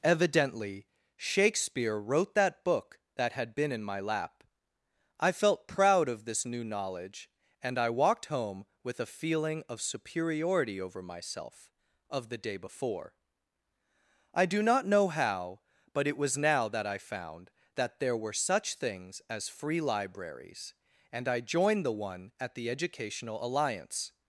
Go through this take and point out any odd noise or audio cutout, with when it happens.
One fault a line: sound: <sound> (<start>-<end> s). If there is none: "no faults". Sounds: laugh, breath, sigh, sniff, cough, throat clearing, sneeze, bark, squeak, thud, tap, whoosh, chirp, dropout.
no faults